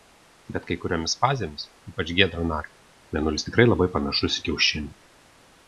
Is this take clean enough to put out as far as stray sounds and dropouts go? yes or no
yes